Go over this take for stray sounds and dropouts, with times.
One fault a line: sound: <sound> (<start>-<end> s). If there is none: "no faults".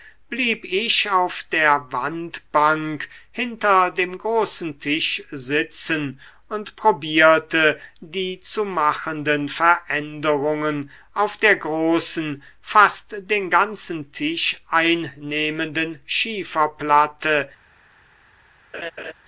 sound: laugh (18.7-19.1 s)